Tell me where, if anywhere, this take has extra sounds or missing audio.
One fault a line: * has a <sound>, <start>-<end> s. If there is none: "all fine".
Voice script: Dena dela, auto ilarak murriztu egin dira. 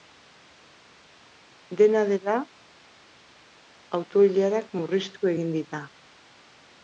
all fine